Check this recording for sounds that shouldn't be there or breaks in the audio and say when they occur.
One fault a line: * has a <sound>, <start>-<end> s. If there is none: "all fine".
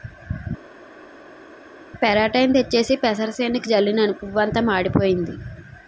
all fine